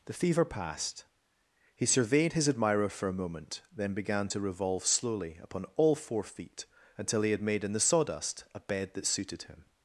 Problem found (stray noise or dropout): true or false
false